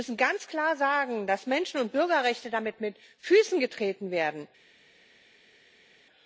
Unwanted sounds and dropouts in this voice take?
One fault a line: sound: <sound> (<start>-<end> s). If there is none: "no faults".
no faults